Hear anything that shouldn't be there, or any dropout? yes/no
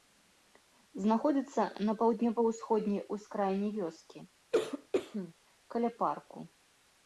yes